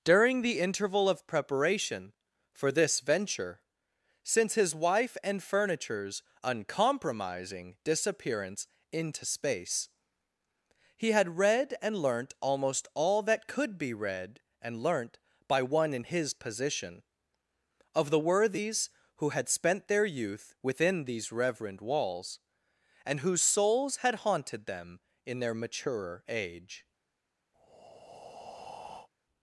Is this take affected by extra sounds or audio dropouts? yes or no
yes